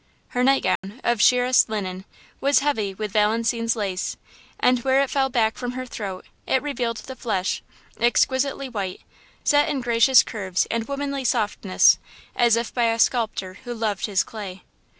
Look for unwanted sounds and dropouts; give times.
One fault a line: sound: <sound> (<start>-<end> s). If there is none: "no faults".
sound: dropout (0.8-0.8 s)